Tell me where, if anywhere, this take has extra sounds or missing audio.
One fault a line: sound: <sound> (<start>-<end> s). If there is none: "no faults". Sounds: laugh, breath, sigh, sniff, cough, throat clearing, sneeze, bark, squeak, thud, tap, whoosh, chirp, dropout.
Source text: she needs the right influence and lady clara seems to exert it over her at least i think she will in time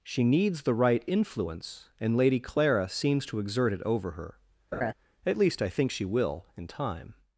sound: laugh (4.7-4.9 s)